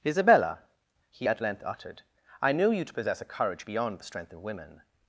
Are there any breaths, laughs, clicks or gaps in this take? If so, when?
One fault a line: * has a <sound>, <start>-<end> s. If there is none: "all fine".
all fine